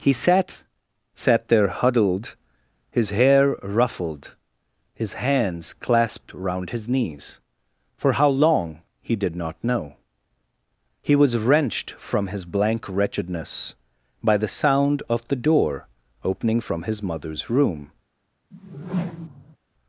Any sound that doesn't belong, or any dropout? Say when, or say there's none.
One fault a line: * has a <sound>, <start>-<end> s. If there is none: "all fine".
* has a whoosh, 18.5-19.6 s